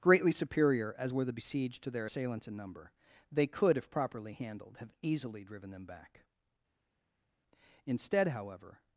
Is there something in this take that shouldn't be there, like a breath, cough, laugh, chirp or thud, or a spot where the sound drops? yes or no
no